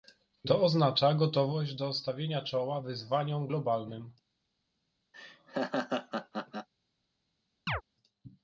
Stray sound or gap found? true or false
true